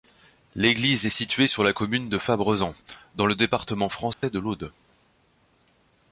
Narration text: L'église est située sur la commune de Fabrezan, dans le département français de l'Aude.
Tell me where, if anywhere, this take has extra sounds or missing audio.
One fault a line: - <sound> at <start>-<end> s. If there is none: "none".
- dropout at 4.1-4.2 s